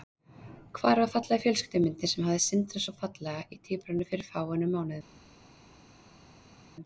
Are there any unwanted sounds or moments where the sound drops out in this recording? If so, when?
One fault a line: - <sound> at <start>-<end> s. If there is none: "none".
none